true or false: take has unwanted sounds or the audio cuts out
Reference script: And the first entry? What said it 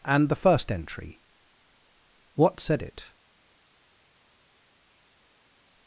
false